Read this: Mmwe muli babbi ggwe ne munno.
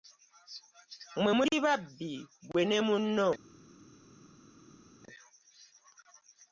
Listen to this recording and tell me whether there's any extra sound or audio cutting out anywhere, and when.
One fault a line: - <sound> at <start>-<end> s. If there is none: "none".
none